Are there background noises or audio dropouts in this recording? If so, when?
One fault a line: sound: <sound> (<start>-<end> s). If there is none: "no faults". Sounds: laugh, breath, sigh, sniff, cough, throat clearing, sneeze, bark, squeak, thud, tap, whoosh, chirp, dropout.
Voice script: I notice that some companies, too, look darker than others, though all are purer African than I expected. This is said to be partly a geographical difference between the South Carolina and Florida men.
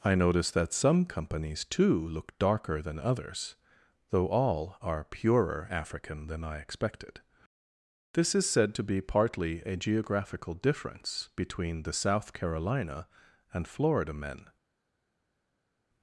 no faults